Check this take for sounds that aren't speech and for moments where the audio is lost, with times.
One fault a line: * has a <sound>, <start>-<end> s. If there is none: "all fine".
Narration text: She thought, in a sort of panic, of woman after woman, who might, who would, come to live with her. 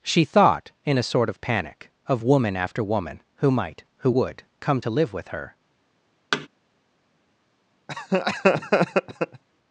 * has a thud, 6.3-6.5 s
* has a laugh, 7.9-9.4 s